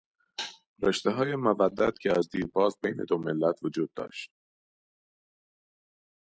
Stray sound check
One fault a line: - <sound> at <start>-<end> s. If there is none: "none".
none